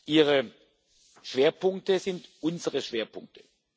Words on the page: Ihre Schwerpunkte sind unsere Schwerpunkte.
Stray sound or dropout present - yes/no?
no